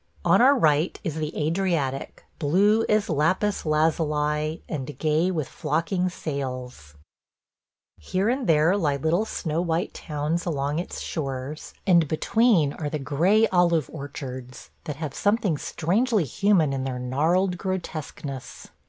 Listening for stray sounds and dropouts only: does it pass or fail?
pass